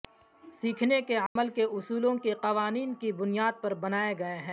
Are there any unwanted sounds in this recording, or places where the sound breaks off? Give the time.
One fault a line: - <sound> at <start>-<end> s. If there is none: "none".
- dropout at 1.3-1.4 s